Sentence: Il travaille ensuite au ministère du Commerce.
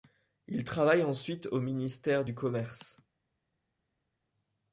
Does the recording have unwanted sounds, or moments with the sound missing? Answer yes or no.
no